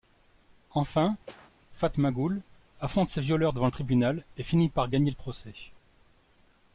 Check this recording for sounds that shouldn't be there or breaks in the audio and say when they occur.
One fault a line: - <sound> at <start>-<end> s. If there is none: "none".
- cough at 1.3-1.5 s